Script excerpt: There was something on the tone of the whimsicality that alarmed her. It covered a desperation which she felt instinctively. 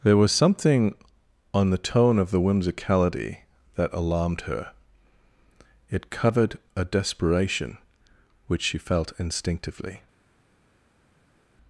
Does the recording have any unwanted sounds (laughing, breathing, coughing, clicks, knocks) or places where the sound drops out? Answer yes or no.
no